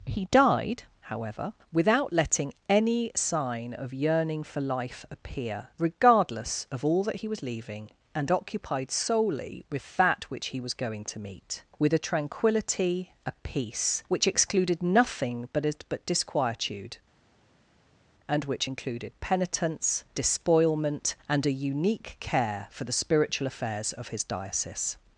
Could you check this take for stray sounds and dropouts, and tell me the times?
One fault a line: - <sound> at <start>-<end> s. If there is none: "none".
none